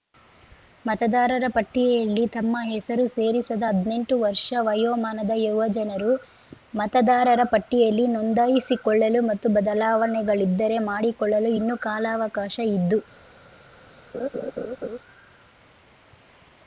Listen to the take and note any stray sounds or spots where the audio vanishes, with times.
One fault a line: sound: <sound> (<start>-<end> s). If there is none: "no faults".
sound: laugh (14.1-15.0 s)